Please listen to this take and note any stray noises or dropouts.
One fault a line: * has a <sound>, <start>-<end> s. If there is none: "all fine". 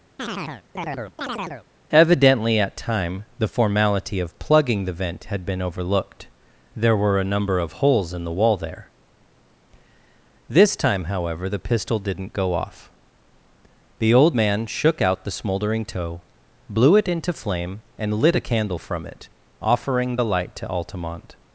* has a chirp, 0.2-1.7 s